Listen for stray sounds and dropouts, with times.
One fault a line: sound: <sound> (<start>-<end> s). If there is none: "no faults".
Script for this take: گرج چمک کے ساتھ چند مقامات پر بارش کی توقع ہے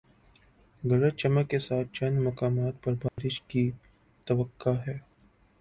sound: dropout (3.1-3.2 s)